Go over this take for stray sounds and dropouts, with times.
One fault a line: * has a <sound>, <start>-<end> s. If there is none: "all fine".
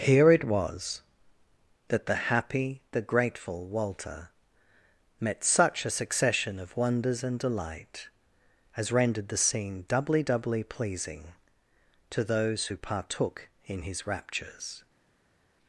all fine